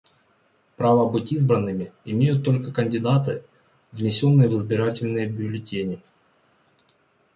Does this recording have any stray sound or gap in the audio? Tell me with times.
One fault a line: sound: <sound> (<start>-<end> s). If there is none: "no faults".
no faults